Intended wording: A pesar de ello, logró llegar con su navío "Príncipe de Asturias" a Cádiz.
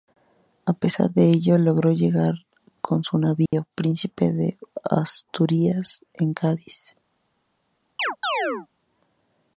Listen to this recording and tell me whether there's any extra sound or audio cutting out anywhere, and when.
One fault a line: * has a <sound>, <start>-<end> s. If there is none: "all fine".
* has a dropout, 3.5-3.5 s
* has a chirp, 8.0-8.7 s